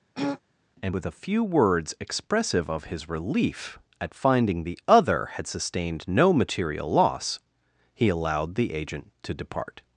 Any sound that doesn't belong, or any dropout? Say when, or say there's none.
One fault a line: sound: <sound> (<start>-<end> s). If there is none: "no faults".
sound: throat clearing (0.2-0.4 s)